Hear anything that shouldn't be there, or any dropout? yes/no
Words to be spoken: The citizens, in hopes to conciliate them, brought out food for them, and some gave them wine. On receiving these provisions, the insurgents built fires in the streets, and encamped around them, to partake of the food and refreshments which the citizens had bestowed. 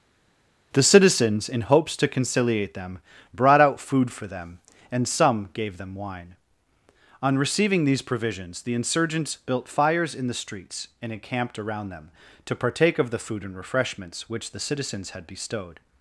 no